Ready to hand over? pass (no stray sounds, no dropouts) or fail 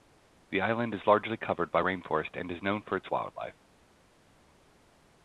pass